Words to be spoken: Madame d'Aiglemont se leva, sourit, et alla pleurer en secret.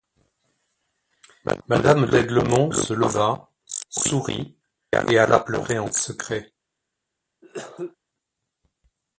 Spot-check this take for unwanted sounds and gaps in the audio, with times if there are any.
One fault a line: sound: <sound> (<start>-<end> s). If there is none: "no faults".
sound: cough (7.4-8.0 s)